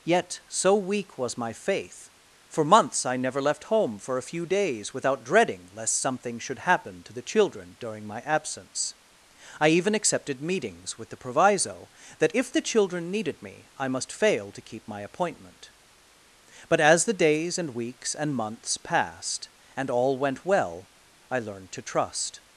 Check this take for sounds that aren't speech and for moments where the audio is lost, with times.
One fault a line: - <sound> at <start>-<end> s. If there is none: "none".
none